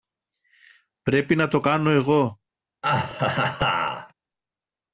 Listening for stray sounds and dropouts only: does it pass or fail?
fail